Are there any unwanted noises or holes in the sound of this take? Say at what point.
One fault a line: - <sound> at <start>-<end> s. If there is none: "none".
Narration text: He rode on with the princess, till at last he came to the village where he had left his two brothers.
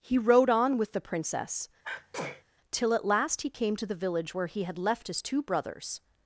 - sneeze at 1.8-2.4 s